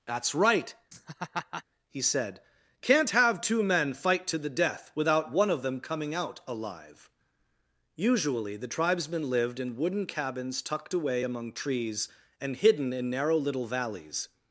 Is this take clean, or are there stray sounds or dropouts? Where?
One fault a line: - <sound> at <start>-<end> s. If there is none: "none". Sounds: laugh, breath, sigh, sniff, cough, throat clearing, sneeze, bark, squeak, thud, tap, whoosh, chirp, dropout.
- laugh at 0.9-1.6 s